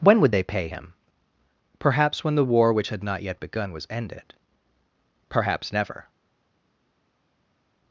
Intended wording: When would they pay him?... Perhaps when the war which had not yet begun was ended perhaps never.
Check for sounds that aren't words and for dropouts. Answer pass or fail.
pass